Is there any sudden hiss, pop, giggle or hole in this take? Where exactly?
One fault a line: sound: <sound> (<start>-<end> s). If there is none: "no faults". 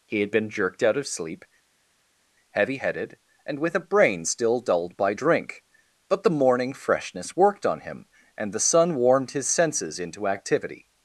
no faults